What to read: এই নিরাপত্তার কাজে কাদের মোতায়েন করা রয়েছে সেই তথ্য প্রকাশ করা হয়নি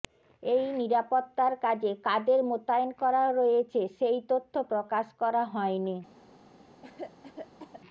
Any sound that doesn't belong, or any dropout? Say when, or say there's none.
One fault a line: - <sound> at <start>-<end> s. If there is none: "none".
- cough at 6.8-7.8 s